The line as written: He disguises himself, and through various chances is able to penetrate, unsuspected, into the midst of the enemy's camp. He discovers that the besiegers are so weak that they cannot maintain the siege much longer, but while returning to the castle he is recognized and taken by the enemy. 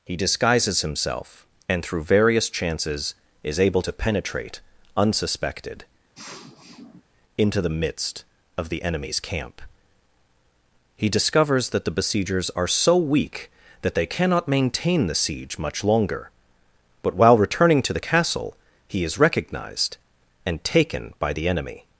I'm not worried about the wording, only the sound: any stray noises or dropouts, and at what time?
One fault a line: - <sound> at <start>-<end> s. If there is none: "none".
- sniff at 6.2-7.0 s